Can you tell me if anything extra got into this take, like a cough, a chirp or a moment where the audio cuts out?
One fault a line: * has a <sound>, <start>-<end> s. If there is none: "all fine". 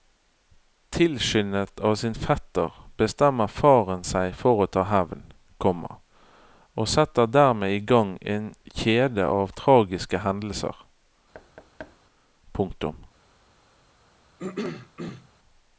* has a thud, 11.3-12.0 s
* has a throat clearing, 14.4-15.3 s